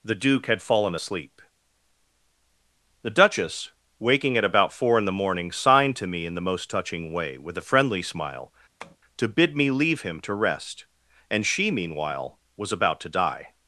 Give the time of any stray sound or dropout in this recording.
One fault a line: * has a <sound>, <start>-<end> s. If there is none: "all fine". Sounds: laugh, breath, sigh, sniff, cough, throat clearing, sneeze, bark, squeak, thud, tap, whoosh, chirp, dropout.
* has a tap, 8.8-9.0 s